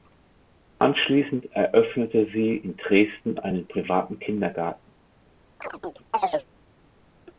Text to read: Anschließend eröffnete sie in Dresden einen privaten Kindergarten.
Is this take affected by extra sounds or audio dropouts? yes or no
yes